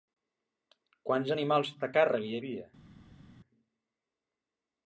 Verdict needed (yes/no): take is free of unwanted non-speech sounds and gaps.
yes